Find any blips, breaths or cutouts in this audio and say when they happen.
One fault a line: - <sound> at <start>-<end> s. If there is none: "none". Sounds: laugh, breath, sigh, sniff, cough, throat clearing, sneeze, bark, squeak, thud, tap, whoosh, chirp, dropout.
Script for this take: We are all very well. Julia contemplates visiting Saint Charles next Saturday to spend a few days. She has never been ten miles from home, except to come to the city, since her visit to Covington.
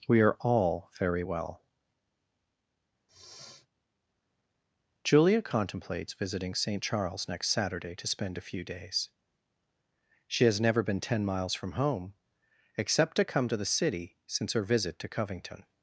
- sniff at 3.1-3.7 s